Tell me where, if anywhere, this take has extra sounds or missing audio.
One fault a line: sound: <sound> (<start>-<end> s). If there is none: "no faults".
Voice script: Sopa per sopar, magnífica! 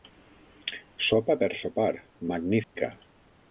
sound: dropout (2.6-2.8 s)